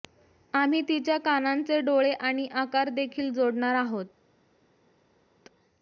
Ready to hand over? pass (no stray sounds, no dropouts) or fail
pass